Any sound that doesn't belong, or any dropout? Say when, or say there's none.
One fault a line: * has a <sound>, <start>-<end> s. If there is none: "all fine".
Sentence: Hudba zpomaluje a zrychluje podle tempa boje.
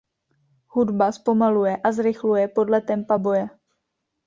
all fine